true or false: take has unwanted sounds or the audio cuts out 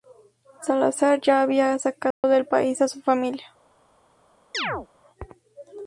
true